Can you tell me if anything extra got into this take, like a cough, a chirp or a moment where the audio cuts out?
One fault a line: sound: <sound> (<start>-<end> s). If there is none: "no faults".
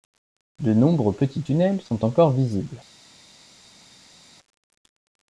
no faults